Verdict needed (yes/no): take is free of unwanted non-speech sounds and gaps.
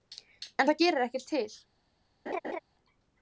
no